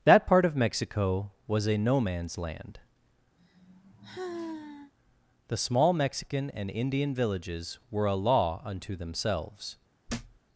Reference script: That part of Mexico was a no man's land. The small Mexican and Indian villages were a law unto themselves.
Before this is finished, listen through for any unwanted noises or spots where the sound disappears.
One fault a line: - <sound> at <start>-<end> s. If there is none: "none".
- sigh at 3.4-4.9 s
- thud at 10.1-10.4 s